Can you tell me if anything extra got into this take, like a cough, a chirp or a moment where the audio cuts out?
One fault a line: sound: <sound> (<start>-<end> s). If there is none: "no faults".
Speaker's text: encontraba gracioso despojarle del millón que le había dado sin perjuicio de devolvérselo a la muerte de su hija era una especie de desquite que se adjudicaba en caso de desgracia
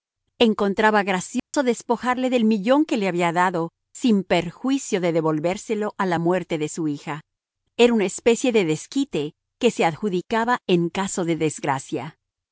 sound: dropout (1.4-1.5 s)